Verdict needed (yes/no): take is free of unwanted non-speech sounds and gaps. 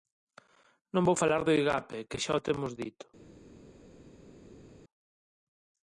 yes